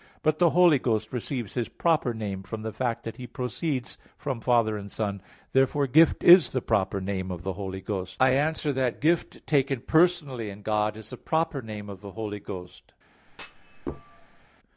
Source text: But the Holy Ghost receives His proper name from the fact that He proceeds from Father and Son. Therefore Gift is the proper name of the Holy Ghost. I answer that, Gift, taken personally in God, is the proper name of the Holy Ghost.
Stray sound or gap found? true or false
true